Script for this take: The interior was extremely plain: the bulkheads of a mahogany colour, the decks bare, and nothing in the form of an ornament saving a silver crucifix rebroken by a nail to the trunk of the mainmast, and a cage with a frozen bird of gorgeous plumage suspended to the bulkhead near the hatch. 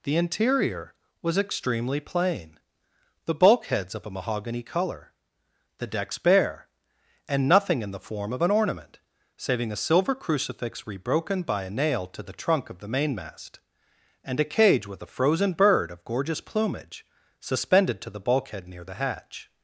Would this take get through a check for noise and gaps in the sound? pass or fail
pass